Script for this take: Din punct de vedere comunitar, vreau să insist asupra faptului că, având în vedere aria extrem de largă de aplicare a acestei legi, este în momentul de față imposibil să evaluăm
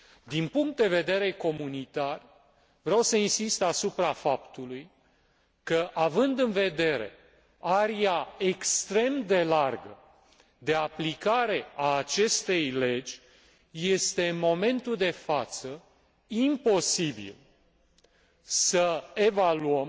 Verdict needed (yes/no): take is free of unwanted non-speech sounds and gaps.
yes